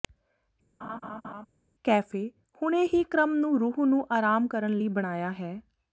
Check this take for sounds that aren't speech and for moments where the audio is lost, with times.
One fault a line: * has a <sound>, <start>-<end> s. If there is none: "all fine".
* has a laugh, 0.8-1.5 s